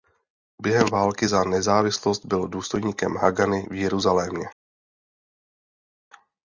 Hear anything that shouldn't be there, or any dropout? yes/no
no